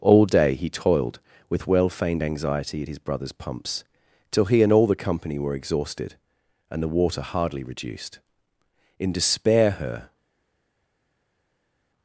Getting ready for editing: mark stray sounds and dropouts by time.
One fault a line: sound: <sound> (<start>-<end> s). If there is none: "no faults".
no faults